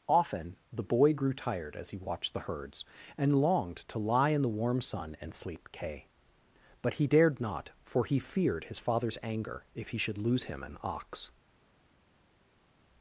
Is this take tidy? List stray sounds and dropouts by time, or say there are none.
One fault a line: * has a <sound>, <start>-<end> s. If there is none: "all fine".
all fine